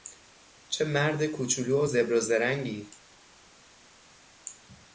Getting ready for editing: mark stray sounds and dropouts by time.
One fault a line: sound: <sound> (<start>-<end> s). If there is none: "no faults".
no faults